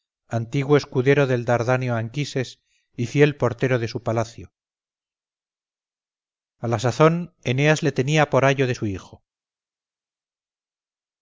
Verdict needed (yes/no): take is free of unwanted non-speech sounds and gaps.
yes